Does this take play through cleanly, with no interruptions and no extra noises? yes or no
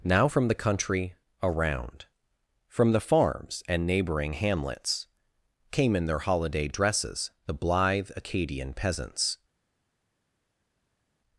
yes